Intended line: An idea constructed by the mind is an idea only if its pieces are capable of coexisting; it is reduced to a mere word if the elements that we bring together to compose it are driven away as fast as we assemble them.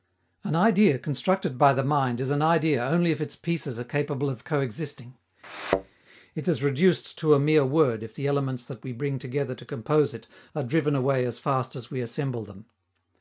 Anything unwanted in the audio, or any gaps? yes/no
yes